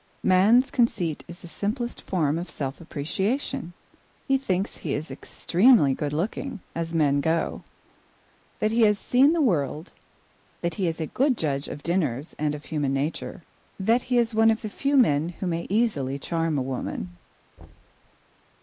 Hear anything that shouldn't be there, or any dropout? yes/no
yes